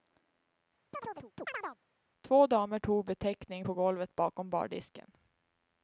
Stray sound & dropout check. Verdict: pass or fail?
fail